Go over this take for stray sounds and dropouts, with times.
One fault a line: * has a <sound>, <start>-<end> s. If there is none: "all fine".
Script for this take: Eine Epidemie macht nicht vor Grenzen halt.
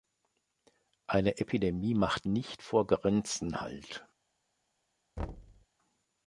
* has a thud, 5.2-5.7 s